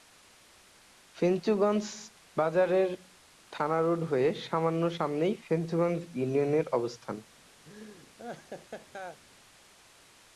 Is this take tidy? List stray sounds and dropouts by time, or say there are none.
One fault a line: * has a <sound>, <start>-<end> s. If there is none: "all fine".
* has a laugh, 7.7-9.2 s